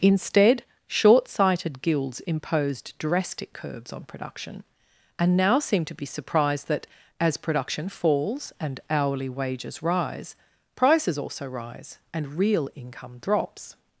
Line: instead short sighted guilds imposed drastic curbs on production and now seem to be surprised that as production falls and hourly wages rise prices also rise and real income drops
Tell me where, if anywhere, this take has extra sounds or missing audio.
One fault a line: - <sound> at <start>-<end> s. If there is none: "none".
none